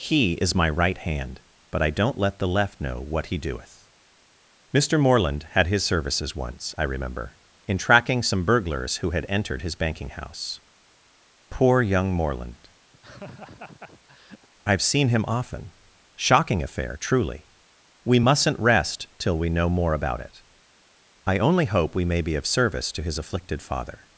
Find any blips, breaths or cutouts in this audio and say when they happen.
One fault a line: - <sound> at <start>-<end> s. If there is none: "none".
- laugh at 12.9-14.5 s